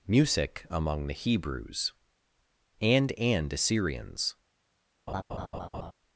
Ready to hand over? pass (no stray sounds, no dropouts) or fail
fail